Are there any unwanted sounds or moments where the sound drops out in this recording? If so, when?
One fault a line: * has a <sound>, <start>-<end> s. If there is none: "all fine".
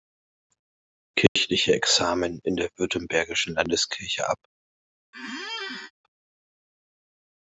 * has a dropout, 1.3-1.4 s
* has a squeak, 5.1-5.9 s